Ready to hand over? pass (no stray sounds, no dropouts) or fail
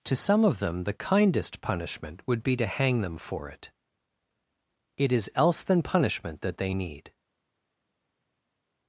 pass